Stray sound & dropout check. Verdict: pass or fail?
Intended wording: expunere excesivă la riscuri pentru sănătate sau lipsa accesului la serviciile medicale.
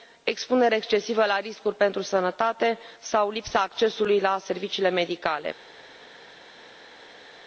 pass